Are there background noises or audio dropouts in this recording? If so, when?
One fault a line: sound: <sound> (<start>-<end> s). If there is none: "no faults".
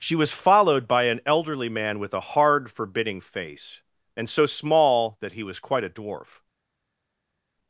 no faults